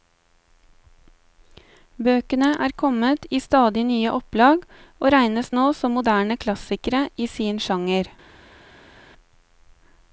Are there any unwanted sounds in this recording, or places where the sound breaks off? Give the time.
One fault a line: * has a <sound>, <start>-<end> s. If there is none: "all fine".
all fine